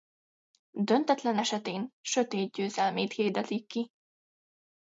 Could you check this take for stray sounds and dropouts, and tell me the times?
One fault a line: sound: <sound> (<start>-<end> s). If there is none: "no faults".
no faults